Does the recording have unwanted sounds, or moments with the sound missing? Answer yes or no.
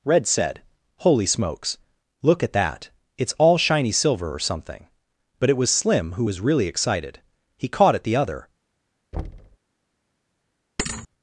yes